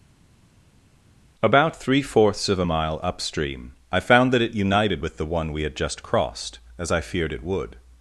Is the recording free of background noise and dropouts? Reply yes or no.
yes